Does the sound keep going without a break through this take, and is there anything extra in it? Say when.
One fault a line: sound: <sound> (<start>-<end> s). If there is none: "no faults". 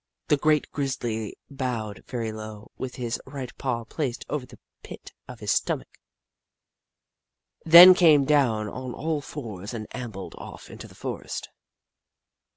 no faults